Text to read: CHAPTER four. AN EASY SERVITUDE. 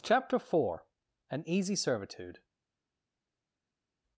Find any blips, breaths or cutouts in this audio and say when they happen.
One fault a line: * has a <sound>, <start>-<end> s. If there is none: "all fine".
all fine